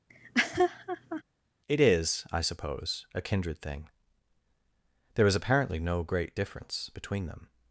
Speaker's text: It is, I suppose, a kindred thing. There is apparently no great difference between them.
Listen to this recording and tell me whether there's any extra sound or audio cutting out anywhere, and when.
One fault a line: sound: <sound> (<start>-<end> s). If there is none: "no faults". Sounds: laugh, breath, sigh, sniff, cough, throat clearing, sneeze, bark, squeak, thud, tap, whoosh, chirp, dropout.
sound: laugh (0.1-1.2 s)